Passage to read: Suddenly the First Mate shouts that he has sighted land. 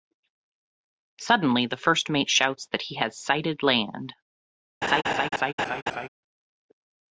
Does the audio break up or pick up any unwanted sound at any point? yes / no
yes